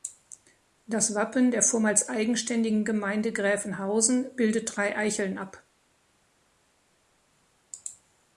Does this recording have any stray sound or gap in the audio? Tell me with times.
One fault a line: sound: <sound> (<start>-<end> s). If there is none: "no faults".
no faults